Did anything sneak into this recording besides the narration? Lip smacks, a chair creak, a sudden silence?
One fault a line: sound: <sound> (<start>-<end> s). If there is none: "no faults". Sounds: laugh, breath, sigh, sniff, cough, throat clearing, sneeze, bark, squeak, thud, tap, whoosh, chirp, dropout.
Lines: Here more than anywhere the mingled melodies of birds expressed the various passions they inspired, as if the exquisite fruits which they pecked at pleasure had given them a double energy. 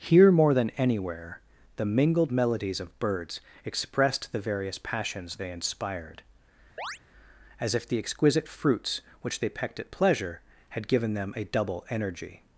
sound: chirp (6.8-7.0 s)